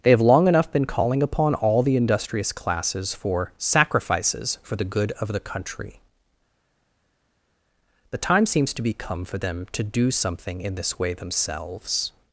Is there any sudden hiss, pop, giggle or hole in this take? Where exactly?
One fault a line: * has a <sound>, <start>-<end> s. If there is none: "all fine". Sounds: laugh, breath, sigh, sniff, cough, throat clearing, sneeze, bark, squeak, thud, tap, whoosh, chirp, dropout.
all fine